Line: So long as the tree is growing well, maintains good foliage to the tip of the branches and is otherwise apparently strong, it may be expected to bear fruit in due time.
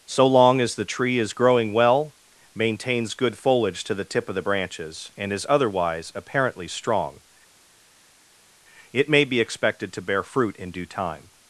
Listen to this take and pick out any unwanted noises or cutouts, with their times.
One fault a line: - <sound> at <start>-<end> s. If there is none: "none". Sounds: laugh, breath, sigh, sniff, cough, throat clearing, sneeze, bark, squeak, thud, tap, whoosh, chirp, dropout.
none